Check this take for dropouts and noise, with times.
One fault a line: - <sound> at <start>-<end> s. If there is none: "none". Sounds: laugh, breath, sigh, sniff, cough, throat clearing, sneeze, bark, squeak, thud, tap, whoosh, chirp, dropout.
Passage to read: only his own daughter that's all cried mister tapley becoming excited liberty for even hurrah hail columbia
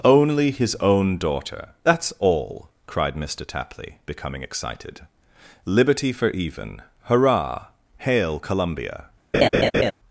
- laugh at 9.3-9.9 s